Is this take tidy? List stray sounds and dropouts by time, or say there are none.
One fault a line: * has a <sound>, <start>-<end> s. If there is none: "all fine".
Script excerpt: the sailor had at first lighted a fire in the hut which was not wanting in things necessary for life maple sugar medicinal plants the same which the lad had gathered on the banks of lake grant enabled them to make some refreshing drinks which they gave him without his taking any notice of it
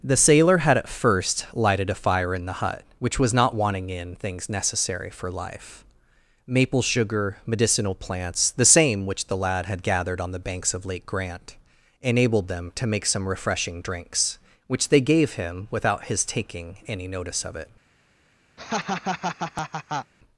* has a laugh, 18.6-20.1 s